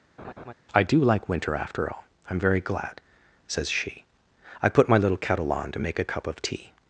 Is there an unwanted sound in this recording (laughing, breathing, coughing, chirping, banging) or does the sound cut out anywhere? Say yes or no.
yes